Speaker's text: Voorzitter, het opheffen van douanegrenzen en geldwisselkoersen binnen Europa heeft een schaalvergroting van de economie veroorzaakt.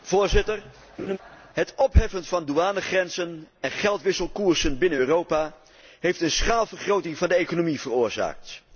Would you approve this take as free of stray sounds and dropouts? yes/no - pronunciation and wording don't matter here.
no